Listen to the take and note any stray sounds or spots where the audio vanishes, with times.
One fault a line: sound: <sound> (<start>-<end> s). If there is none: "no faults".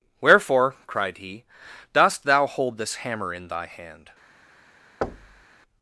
sound: thud (5.0-5.5 s)